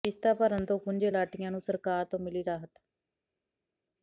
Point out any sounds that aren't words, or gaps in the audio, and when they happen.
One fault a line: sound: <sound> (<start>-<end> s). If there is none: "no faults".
no faults